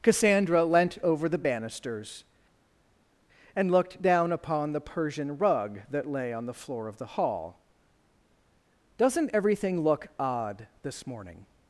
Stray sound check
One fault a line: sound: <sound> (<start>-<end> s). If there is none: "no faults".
no faults